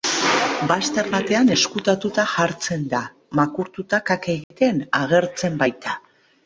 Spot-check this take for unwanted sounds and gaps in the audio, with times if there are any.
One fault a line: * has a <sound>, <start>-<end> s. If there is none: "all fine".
* has a dropout, 4.4-4.5 s